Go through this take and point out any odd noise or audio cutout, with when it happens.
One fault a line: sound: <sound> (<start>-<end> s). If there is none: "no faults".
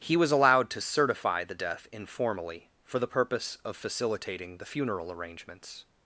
no faults